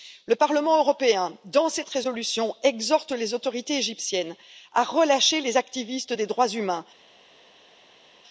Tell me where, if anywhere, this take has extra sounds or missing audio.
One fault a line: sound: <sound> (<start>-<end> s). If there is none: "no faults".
no faults